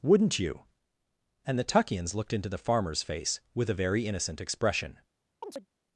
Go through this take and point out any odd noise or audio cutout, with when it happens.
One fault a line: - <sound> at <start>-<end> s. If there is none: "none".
- chirp at 5.4-5.7 s